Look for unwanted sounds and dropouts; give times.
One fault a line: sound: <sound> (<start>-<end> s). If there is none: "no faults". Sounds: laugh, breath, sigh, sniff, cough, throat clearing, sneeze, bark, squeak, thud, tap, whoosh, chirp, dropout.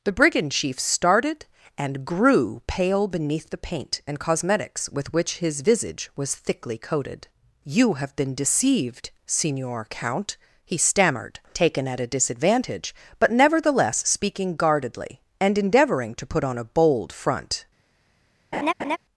sound: laugh (18.5-19.0 s)